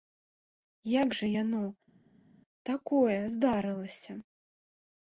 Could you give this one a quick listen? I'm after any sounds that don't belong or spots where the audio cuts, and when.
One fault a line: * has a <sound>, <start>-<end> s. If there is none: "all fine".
all fine